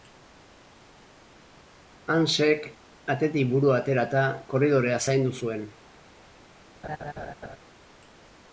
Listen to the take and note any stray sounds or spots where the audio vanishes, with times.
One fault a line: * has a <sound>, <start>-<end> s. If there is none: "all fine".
* has a laugh, 6.8-7.6 s